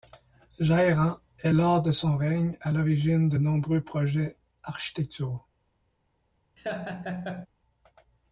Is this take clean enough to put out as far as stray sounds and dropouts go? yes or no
no